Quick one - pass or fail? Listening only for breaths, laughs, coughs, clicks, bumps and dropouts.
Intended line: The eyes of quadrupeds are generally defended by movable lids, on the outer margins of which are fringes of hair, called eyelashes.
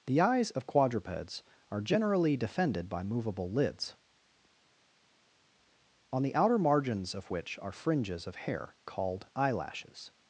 pass